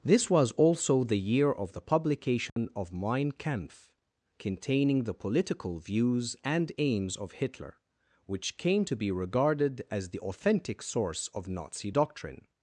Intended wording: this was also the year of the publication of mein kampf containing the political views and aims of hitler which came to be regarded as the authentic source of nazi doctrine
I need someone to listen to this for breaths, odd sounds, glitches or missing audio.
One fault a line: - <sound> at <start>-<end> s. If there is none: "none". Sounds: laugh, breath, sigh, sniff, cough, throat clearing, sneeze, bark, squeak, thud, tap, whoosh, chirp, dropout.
- dropout at 2.5-2.6 s